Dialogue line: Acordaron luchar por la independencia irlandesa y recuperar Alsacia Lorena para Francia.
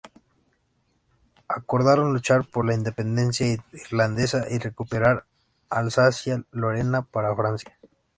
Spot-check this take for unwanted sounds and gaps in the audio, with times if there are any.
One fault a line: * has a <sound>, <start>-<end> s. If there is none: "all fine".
all fine